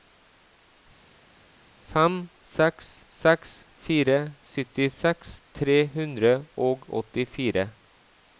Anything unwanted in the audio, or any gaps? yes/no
no